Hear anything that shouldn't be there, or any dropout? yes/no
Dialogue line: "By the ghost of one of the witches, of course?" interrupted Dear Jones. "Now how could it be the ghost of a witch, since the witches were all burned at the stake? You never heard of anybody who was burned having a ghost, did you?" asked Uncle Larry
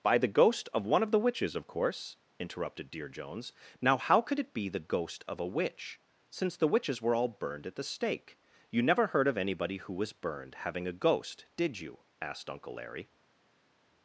no